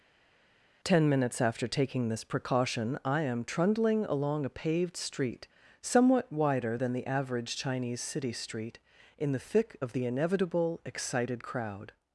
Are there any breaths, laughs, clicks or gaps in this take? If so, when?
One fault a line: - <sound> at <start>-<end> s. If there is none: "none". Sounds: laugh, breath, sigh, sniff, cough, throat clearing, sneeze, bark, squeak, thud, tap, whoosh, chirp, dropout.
none